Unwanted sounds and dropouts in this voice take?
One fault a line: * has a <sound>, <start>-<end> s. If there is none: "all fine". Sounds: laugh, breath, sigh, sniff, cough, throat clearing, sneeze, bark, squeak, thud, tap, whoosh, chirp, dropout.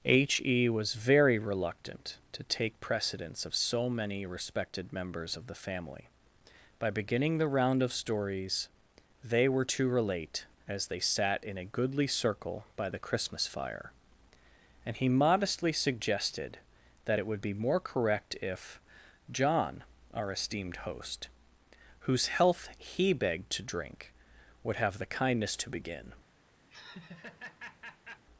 * has a laugh, 26.7-28.2 s